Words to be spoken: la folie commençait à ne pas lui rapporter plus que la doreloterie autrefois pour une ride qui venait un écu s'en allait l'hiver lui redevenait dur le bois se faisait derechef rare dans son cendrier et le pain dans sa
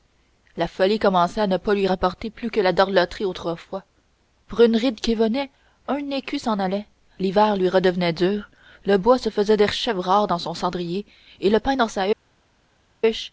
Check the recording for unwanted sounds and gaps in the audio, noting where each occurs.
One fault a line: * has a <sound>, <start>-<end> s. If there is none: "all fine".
all fine